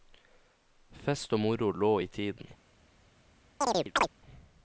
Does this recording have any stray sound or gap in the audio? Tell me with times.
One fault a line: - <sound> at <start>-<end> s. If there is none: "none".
- chirp at 3.6-4.1 s